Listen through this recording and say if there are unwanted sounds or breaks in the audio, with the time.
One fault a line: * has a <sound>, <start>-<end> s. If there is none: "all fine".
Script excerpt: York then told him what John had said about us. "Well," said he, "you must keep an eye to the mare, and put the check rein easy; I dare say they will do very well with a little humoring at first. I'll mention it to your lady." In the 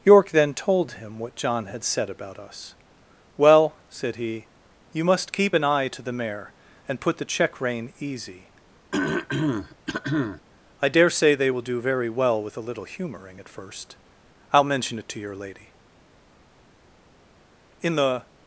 * has a throat clearing, 8.9-10.4 s